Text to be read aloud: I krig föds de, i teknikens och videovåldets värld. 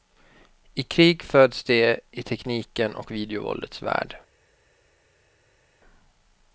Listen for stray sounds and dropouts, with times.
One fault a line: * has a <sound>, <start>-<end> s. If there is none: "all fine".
all fine